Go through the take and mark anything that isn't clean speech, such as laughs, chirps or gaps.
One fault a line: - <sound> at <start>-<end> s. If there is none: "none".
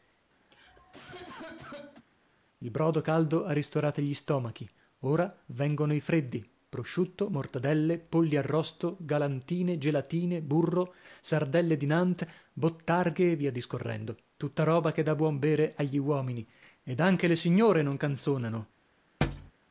- cough at 0.5-2.1 s
- thud at 19.2-19.5 s